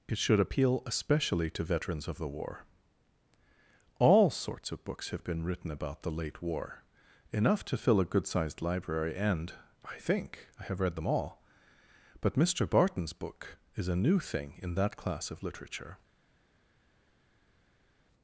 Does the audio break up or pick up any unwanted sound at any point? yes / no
no